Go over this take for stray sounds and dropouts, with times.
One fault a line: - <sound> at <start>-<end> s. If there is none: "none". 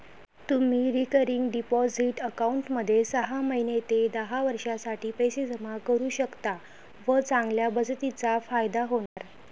- dropout at 9.1-9.2 s